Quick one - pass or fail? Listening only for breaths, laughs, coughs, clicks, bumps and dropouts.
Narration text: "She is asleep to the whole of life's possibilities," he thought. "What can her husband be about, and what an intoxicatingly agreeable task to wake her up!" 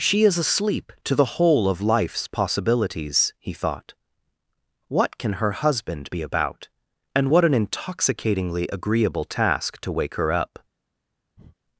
fail